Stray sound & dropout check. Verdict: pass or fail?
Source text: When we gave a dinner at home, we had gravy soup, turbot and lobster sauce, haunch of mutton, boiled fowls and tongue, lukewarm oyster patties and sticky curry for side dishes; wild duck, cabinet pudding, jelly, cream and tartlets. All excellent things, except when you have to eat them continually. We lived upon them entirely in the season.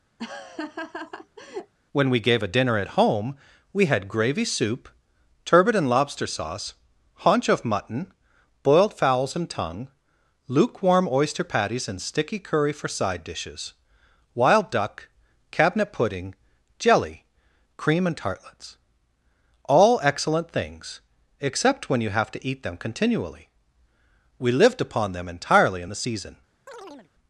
fail